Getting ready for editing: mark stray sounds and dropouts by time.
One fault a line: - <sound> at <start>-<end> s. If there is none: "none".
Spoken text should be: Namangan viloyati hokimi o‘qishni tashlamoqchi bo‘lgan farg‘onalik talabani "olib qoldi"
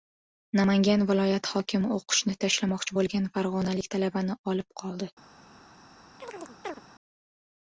- chirp at 6.2-6.8 s